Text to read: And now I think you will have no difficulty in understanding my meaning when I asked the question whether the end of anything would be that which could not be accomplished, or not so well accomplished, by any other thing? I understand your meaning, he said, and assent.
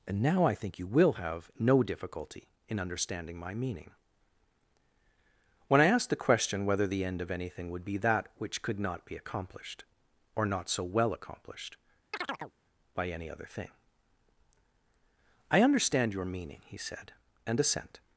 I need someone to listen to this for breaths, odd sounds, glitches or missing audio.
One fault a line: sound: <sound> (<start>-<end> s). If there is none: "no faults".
sound: chirp (12.1-12.5 s)